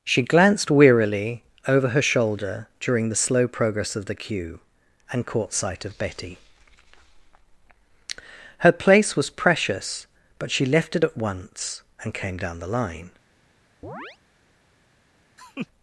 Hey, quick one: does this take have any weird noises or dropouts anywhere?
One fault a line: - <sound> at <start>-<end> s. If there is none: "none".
- chirp at 13.8-14.2 s
- laugh at 15.4-15.7 s